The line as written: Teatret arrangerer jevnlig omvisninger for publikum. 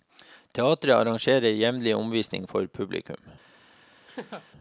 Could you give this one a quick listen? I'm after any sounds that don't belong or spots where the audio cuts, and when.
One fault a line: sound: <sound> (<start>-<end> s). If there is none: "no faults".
sound: laugh (4.1-4.5 s)